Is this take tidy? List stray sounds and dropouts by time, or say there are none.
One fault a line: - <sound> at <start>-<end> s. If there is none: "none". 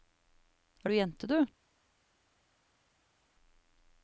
none